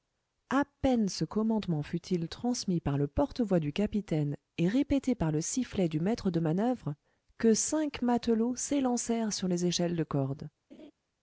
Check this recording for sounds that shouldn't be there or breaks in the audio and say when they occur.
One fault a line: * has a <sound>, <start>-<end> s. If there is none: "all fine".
* has a laugh, 10.7-10.9 s